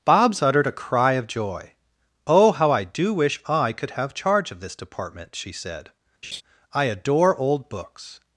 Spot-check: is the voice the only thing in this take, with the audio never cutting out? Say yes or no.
no